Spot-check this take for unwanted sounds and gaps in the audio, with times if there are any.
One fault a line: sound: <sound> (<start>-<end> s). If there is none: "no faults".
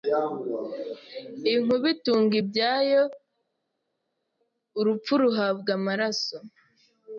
no faults